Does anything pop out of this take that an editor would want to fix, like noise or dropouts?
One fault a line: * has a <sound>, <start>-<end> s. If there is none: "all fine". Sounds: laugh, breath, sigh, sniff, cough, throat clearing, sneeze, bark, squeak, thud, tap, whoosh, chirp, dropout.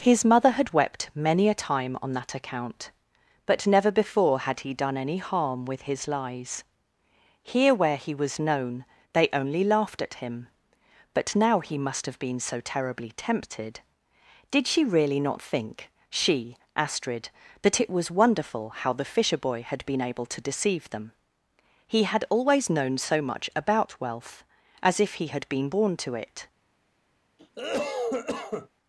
* has a cough, 27.4-28.7 s